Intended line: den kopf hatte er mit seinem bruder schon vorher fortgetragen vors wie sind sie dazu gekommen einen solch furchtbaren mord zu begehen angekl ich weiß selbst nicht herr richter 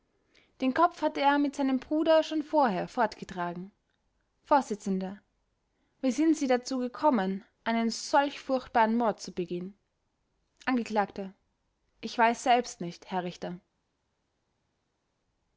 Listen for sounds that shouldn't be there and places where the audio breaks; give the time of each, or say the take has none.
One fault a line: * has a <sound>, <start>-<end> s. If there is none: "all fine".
all fine